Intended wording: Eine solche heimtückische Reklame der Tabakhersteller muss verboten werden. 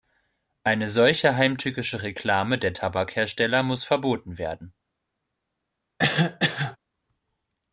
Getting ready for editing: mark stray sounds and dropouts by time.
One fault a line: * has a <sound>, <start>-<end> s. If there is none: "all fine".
* has a cough, 6.0-6.8 s